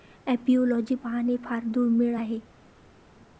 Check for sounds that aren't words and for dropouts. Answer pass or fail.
pass